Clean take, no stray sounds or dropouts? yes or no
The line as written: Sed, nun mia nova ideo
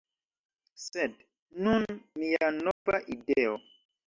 no